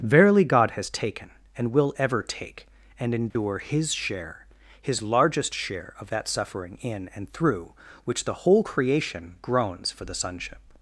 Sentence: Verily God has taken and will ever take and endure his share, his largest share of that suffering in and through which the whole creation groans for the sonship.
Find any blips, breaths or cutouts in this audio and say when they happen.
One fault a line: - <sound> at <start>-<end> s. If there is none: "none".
- dropout at 3.3-3.4 s